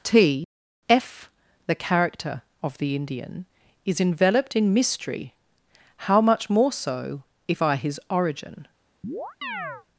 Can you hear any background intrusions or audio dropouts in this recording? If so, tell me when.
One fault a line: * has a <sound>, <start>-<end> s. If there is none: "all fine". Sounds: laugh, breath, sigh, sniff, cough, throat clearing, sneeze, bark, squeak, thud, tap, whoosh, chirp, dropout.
* has a chirp, 9.0-9.9 s